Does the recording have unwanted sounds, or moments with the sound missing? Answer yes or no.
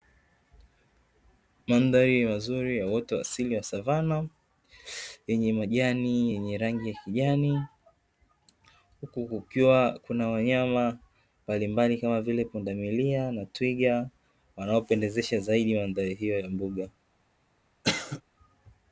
yes